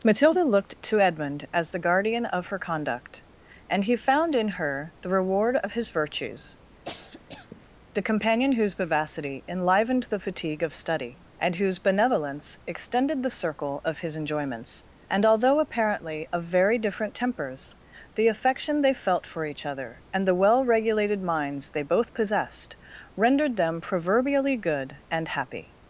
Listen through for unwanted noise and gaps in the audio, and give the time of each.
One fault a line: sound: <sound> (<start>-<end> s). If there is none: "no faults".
sound: cough (6.8-7.7 s)